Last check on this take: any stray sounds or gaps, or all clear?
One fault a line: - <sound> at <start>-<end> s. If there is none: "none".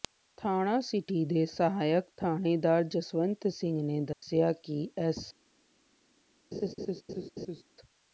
- dropout at 4.1-4.2 s
- laugh at 6.5-7.6 s